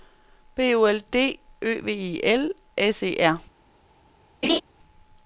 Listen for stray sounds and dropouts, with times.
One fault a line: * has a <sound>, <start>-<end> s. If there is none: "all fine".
* has a laugh, 4.4-4.6 s